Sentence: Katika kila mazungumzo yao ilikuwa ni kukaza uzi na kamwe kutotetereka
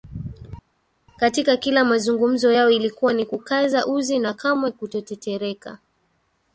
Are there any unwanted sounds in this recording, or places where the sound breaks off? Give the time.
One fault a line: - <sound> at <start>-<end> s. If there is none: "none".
none